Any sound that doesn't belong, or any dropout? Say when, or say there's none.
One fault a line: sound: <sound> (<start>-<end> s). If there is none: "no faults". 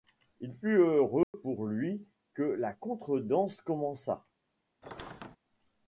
sound: dropout (1.2-1.3 s)
sound: squeak (4.8-5.4 s)